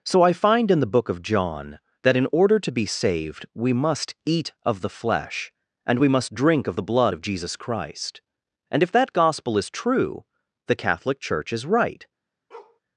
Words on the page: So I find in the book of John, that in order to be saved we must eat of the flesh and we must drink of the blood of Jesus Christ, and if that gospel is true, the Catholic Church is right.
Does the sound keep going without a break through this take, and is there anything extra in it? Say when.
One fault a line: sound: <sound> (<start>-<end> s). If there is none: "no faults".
sound: bark (12.5-12.8 s)